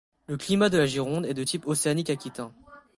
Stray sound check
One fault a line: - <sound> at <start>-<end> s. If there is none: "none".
none